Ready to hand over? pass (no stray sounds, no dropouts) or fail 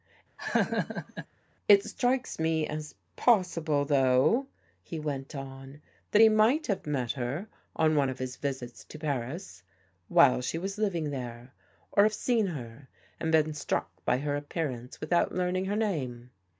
fail